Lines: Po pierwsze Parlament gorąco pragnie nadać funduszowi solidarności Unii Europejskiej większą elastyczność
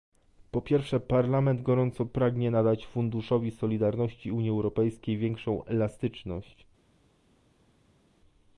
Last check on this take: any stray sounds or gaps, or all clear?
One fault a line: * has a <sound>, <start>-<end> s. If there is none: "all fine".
all fine